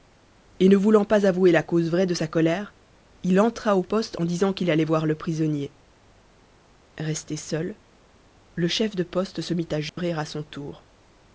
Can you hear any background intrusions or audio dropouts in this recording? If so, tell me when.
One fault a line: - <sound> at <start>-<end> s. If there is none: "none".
- dropout at 9.9-10.0 s